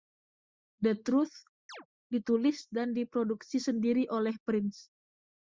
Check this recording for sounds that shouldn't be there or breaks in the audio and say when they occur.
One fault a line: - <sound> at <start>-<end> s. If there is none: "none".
- chirp at 1.7-1.9 s